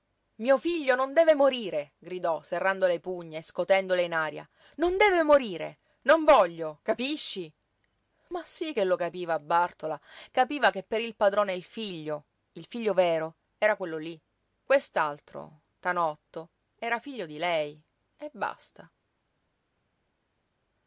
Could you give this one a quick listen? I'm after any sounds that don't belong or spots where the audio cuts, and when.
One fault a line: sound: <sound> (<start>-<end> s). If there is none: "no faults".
no faults